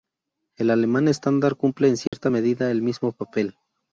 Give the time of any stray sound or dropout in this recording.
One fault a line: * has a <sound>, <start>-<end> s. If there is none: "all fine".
* has a dropout, 2.1-2.1 s